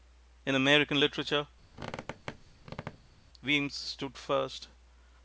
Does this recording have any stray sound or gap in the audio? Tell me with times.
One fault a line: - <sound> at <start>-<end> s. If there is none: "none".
- squeak at 1.7-3.2 s